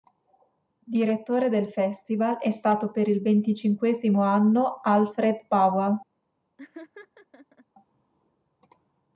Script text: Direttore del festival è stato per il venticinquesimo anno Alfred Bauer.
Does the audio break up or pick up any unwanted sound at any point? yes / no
yes